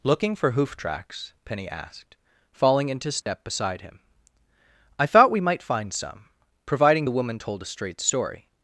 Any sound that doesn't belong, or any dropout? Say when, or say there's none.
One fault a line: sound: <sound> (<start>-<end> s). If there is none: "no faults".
sound: dropout (3.2-3.3 s)